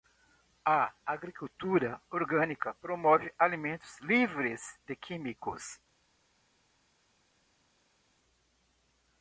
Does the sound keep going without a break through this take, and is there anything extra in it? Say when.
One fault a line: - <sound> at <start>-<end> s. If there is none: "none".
none